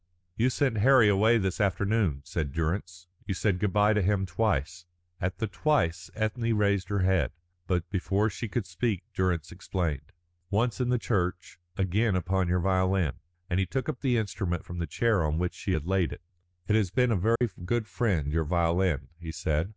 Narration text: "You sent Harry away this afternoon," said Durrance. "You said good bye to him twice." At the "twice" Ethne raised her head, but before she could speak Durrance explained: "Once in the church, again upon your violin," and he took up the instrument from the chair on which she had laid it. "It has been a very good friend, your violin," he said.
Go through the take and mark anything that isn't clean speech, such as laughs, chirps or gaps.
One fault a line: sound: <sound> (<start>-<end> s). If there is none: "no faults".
sound: dropout (17.4-17.4 s)